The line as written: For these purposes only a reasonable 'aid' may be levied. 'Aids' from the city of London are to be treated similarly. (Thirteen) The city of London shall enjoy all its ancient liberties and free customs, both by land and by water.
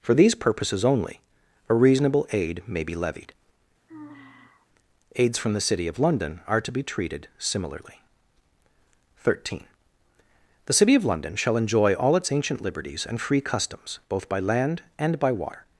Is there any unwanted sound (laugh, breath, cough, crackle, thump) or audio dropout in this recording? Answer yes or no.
yes